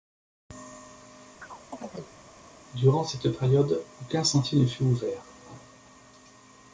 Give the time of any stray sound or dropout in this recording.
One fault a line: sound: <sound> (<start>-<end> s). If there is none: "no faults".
sound: chirp (1.4-2.2 s)